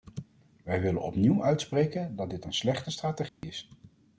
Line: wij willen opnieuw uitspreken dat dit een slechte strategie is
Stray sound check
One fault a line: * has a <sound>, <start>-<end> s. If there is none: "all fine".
* has a dropout, 3.3-3.4 s